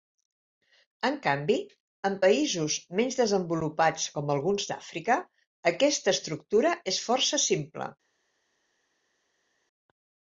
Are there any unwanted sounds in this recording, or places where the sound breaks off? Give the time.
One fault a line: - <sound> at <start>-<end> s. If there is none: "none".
none